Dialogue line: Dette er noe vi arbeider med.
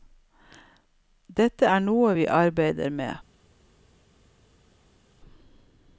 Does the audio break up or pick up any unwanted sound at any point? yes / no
no